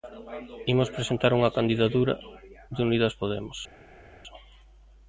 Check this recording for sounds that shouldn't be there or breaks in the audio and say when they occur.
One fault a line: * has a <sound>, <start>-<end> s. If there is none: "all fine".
all fine